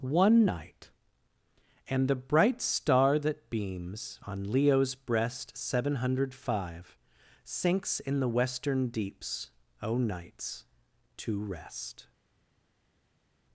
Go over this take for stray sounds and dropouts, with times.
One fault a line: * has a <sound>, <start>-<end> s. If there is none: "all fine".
all fine